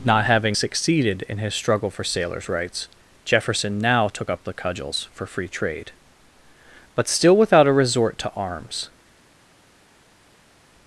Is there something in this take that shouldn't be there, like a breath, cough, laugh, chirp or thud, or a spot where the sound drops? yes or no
no